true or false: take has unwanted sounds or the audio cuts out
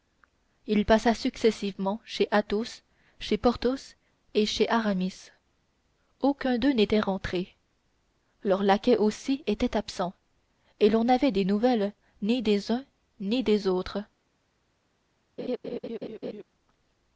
true